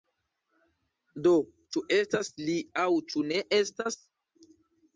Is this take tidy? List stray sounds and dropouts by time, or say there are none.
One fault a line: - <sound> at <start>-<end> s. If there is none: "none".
none